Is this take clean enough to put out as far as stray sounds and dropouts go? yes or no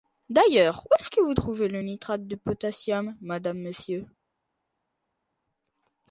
yes